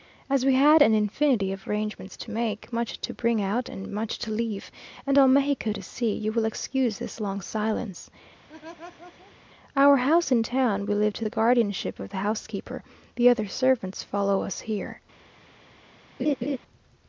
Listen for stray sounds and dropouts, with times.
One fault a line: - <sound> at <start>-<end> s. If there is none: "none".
- laugh at 8.5-9.4 s
- laugh at 16.2-16.6 s